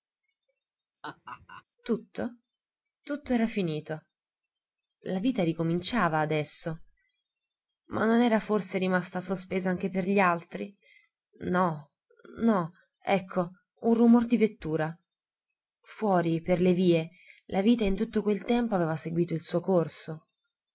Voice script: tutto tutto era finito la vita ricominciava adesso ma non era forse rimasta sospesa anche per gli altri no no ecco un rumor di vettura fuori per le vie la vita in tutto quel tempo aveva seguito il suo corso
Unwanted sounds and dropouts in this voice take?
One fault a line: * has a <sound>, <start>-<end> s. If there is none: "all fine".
* has a laugh, 1.0-1.6 s